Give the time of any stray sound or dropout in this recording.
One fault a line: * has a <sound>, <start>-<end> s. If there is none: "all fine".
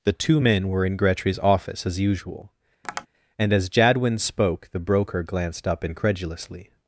* has a tap, 2.8-3.1 s